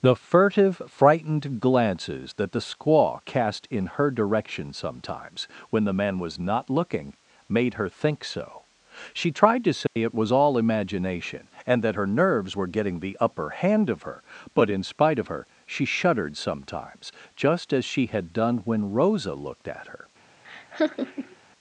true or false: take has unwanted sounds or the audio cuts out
true